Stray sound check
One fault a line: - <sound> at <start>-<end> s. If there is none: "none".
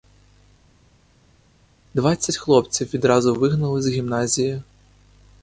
none